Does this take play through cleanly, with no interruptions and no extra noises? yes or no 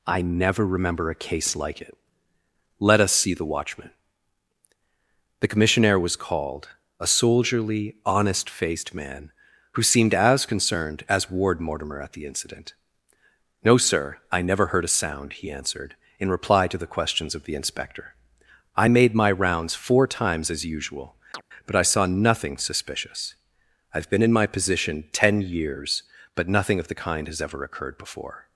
no